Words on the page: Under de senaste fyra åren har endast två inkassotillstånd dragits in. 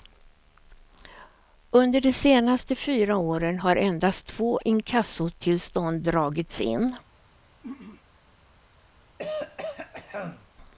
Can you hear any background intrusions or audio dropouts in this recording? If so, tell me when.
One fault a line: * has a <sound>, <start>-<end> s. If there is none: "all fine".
* has a throat clearing, 7.6-8.0 s
* has a throat clearing, 9.2-10.5 s